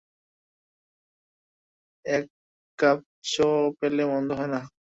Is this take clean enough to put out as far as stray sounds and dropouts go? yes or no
yes